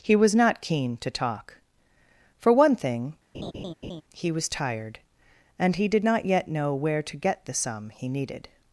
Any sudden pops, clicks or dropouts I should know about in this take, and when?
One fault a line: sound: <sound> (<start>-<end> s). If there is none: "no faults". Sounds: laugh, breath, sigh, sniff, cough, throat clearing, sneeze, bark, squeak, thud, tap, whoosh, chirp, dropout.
sound: laugh (3.3-4.0 s)